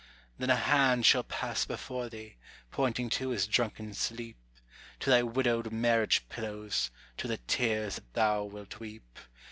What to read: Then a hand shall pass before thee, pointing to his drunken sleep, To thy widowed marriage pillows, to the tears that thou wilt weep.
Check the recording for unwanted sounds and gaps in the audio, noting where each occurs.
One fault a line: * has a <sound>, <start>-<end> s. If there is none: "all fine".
all fine